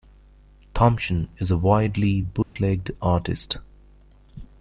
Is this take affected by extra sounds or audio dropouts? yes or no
yes